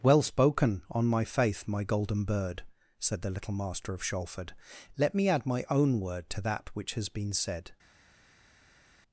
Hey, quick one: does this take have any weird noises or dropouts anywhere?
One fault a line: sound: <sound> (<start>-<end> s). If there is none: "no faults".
no faults